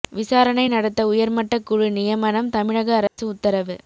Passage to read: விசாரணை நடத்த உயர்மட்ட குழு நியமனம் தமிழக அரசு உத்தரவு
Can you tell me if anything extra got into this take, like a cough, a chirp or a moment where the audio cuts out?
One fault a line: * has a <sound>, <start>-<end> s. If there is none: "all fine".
* has a dropout, 3.1-3.2 s